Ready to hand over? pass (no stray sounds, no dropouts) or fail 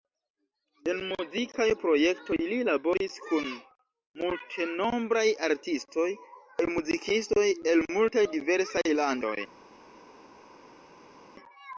pass